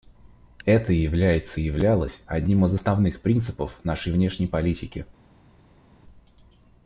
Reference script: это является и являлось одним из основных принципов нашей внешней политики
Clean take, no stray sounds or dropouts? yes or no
yes